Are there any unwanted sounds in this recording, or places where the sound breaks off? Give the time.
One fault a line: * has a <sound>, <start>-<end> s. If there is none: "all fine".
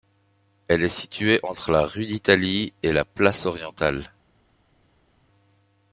all fine